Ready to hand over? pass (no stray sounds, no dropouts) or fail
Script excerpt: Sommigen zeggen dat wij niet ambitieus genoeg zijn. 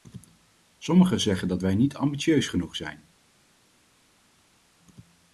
pass